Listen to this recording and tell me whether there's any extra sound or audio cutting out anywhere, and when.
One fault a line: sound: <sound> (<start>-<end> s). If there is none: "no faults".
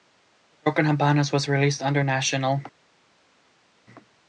no faults